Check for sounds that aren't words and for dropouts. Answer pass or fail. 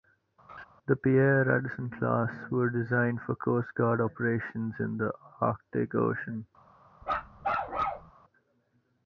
fail